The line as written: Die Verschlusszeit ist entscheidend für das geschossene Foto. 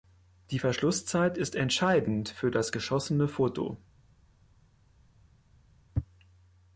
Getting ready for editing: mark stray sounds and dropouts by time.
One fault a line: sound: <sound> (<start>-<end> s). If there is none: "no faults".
no faults